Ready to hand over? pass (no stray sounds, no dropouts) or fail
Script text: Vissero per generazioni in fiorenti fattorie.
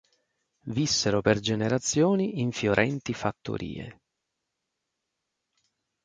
pass